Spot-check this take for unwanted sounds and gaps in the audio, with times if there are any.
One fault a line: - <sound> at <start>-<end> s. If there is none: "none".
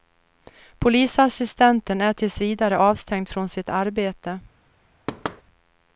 - thud at 5.1-5.4 s